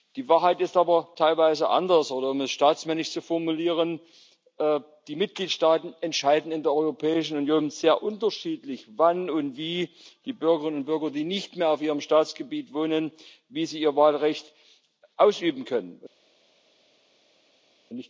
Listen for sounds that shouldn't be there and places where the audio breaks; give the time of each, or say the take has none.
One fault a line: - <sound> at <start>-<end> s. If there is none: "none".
none